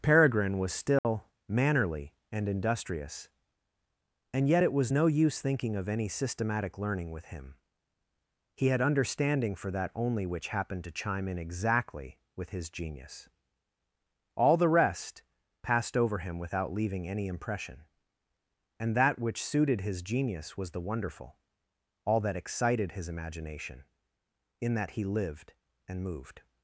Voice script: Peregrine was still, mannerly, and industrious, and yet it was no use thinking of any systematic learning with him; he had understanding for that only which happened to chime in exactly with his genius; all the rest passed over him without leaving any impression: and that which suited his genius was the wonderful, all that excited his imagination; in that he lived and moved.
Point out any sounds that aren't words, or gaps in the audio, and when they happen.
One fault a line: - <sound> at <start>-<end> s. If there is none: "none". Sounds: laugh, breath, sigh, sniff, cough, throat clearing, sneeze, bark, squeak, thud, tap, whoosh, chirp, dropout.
- dropout at 1.0-1.0 s